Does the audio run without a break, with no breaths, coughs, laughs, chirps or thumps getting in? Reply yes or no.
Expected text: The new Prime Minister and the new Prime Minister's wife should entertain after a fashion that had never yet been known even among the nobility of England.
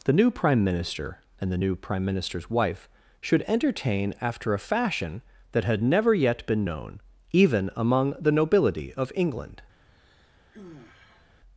no